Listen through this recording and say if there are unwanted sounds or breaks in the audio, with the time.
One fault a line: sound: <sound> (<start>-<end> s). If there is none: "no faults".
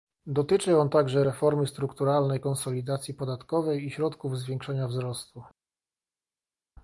no faults